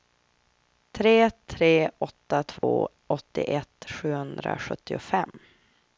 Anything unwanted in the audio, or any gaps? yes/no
yes